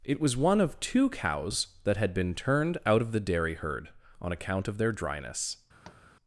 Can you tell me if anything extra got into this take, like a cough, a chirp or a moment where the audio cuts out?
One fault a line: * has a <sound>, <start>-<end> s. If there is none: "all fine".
* has a tap, 5.8-6.0 s